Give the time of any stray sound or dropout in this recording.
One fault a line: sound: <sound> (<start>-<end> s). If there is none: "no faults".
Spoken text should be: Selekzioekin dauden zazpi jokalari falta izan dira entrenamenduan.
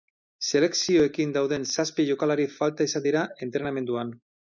no faults